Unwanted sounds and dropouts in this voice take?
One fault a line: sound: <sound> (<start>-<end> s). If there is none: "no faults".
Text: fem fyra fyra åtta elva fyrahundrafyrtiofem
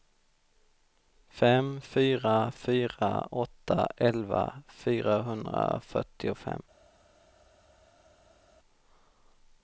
no faults